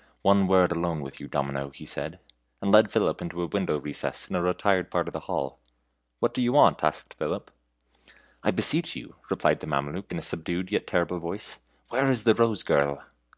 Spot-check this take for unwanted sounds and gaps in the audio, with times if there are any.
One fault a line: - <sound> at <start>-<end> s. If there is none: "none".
none